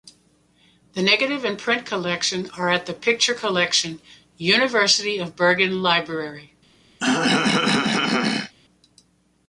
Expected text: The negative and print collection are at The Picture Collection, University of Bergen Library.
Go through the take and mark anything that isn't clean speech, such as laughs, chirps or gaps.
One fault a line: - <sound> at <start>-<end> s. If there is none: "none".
- throat clearing at 7.0-8.5 s